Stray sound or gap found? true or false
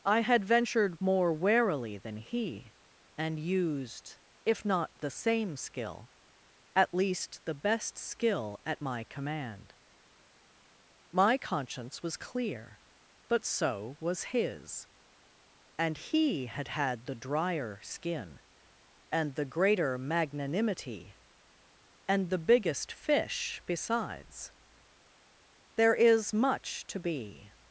false